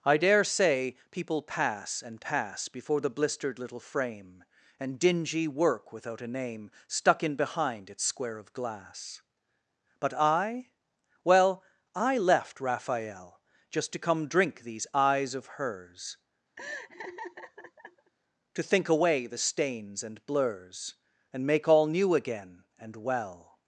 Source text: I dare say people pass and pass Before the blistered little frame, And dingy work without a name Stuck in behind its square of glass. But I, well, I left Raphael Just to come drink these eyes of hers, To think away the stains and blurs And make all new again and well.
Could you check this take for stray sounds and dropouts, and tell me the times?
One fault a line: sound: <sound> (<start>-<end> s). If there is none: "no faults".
sound: laugh (16.6-18.1 s)